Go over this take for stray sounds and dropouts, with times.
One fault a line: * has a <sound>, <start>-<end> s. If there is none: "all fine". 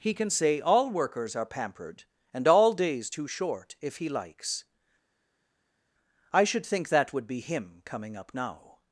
all fine